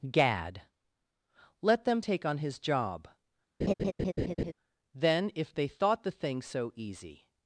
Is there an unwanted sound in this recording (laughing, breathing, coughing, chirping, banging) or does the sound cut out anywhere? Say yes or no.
yes